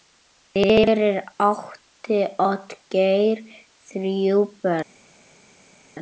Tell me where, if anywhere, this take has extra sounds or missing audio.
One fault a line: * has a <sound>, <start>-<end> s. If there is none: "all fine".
all fine